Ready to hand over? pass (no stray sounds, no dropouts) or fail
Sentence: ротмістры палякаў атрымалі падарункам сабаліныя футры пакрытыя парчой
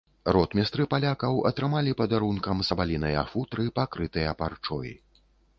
pass